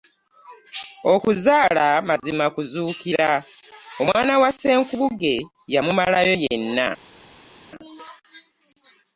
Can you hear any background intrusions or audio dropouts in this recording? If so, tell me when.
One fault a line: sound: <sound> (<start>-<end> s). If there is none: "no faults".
no faults